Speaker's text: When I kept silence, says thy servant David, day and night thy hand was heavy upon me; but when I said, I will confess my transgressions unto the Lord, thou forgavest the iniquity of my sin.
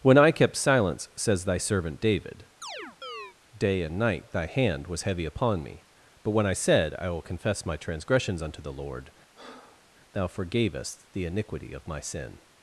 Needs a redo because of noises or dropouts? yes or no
yes